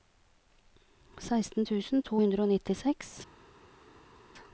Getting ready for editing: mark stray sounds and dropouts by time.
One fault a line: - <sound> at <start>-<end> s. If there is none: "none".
none